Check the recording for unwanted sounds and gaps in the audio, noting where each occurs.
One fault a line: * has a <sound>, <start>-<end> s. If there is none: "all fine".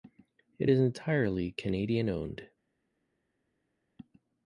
all fine